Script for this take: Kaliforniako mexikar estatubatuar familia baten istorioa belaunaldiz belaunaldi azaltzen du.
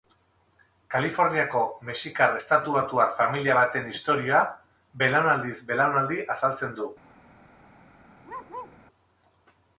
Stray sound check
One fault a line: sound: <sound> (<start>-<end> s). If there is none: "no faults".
sound: bark (8.2-8.8 s)